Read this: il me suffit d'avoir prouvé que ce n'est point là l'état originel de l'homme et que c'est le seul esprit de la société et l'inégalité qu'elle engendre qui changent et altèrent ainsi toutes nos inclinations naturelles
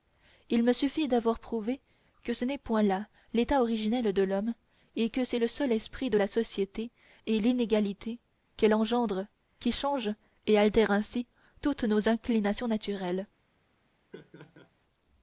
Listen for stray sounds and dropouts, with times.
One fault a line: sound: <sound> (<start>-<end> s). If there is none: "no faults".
sound: laugh (14.1-14.7 s)